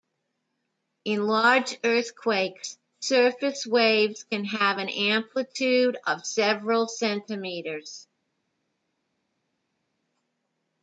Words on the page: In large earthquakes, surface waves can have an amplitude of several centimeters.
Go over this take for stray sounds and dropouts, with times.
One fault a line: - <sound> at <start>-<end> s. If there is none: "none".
none